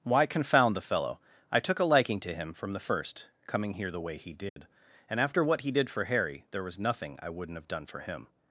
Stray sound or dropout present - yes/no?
yes